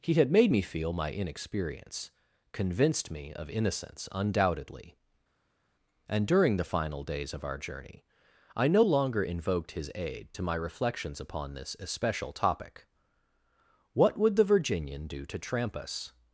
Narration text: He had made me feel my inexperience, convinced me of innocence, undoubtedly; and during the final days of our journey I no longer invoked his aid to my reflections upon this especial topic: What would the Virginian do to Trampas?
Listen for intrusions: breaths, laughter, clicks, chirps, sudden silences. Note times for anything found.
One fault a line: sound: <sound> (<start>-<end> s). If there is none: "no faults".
no faults